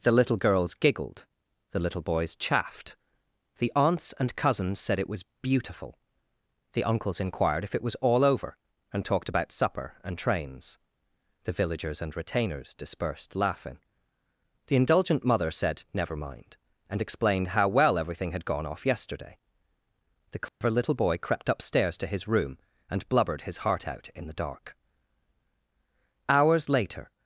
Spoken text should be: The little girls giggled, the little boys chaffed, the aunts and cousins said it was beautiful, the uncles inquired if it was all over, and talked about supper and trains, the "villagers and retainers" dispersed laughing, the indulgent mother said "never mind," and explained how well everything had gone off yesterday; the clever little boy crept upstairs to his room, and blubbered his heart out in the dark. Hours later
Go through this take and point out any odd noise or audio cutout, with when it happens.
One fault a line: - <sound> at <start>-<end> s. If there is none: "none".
- dropout at 20.5-20.6 s